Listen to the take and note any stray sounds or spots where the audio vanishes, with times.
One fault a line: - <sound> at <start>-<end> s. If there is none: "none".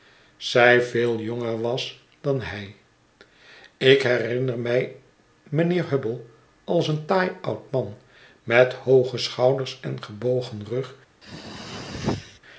- throat clearing at 11.2-12.4 s